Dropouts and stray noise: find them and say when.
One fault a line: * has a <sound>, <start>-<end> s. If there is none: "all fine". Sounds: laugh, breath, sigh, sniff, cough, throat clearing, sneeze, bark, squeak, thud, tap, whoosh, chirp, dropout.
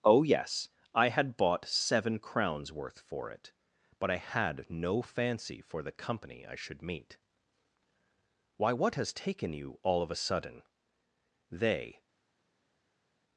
all fine